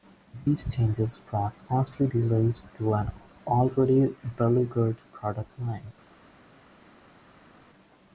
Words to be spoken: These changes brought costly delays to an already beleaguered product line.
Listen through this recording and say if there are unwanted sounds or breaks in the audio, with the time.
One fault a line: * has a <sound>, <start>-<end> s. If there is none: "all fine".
all fine